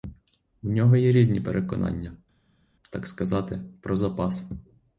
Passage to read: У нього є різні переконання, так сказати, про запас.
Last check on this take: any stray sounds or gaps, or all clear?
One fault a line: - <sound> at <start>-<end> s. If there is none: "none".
none